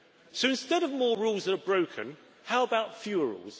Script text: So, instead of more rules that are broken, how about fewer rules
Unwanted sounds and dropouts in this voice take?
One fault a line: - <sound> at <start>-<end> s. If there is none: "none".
none